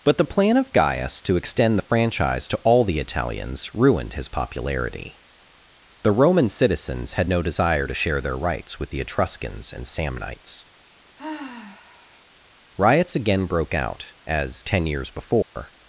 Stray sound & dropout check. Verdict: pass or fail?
fail